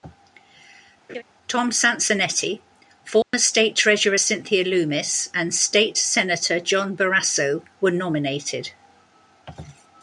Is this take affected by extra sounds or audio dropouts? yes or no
yes